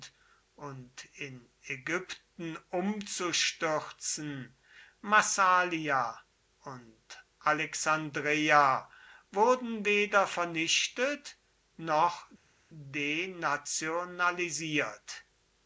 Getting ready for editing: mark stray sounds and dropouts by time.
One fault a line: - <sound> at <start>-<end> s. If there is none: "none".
none